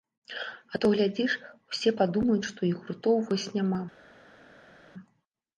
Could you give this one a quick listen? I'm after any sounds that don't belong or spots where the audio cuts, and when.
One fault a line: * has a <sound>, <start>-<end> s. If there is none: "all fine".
all fine